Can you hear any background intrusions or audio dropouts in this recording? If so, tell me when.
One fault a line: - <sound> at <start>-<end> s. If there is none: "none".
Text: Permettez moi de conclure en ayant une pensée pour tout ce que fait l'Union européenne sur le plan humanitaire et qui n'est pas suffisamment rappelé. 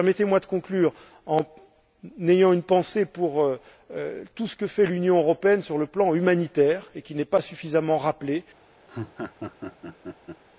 - laugh at 8.9-10.4 s